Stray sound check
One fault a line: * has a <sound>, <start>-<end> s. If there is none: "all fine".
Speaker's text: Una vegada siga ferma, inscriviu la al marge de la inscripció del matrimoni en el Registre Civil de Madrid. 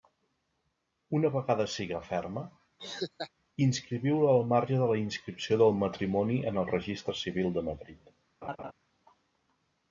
* has a laugh, 2.8-3.3 s
* has a laugh, 8.4-8.7 s